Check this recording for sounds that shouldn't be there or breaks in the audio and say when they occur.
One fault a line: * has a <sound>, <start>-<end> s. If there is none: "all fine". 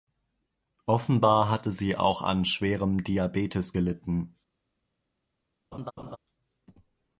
* has a laugh, 5.7-6.2 s